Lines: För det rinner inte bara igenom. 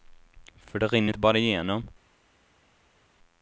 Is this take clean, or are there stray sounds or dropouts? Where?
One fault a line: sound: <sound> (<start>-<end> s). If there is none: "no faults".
no faults